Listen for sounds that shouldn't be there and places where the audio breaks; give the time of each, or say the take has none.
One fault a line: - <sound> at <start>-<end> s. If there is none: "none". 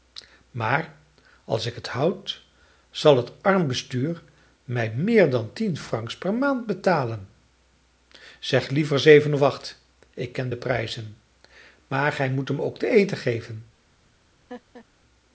- laugh at 14.5-14.9 s